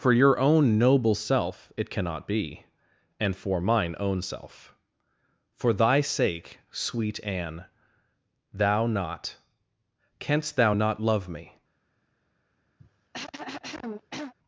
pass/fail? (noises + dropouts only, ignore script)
fail